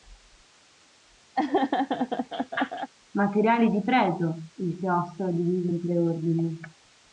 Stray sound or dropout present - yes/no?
yes